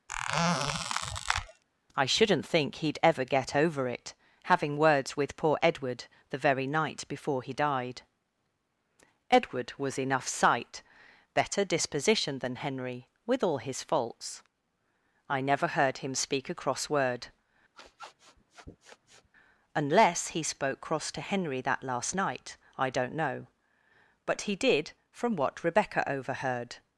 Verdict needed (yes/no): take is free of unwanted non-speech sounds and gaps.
no